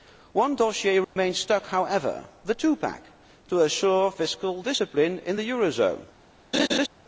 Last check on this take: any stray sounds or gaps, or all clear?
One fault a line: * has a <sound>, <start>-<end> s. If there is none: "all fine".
* has a dropout, 1.0-1.2 s
* has a laugh, 6.5-6.9 s